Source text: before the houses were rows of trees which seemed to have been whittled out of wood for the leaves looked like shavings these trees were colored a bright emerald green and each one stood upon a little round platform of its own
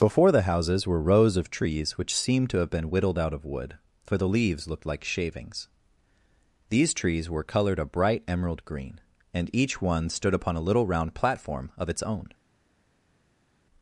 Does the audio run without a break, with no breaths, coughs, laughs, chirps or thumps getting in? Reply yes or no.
yes